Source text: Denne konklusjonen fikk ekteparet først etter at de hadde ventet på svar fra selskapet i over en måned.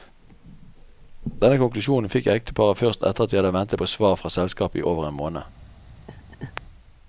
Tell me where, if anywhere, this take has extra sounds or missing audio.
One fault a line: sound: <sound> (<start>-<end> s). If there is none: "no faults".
sound: laugh (6.1-6.6 s)